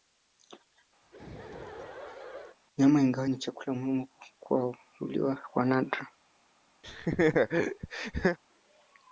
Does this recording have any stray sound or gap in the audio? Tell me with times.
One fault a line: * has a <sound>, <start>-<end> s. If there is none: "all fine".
* has a laugh, 1.0-2.6 s
* has a laugh, 6.8-8.4 s